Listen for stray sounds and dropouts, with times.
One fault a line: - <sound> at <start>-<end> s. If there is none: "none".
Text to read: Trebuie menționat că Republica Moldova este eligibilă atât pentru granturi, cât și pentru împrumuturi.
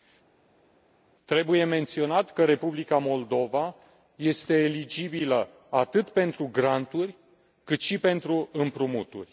none